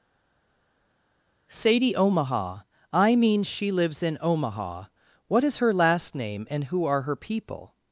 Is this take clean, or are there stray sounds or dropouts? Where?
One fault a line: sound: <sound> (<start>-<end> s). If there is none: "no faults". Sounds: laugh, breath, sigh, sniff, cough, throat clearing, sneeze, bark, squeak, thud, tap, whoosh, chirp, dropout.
no faults